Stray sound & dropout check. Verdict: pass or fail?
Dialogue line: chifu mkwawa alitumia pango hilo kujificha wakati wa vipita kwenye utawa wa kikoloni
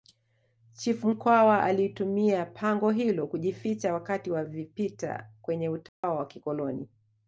fail